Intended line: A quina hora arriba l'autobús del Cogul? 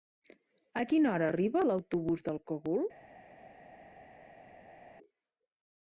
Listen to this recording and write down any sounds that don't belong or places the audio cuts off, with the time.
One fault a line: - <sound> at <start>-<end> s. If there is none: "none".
none